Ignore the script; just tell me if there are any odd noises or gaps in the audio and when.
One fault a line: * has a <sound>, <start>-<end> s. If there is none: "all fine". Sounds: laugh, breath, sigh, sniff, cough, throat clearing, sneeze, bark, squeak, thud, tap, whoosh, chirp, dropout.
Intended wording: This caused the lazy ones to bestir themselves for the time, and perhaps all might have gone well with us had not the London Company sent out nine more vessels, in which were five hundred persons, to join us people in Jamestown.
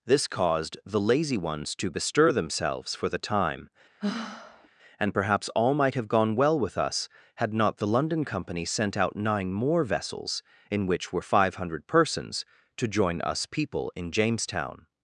* has a sigh, 4.0-4.7 s